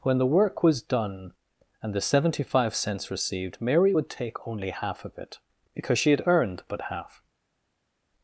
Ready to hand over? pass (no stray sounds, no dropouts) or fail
pass